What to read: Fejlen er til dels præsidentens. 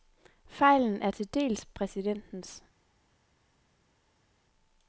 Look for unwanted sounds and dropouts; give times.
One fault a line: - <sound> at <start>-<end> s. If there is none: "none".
none